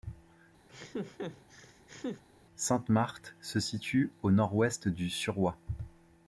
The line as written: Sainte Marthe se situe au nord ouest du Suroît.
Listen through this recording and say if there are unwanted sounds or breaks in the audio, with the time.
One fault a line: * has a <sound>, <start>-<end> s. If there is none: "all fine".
* has a laugh, 0.7-2.2 s